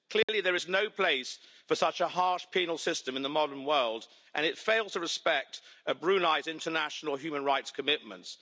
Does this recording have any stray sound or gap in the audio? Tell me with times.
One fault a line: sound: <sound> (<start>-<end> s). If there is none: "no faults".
sound: dropout (0.2-0.3 s)